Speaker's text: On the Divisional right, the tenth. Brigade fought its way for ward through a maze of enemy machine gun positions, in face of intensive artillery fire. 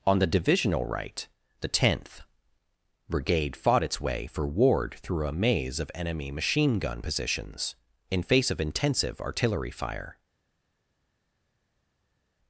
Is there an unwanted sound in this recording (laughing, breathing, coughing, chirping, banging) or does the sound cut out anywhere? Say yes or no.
no